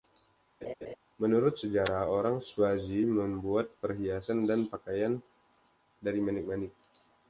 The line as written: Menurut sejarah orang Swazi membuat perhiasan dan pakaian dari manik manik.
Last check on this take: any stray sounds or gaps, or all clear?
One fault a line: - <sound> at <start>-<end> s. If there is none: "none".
- laugh at 0.6-1.0 s